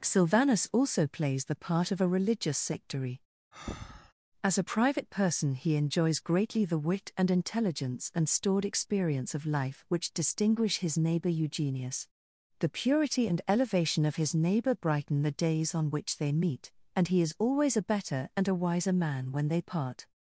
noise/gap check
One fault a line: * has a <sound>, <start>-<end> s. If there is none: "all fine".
* has a breath, 3.5-4.1 s